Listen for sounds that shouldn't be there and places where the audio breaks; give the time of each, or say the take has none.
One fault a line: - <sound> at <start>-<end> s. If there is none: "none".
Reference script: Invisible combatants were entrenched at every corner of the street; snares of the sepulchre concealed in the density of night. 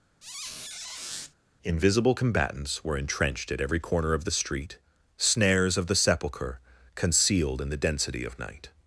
- squeak at 0.2-1.3 s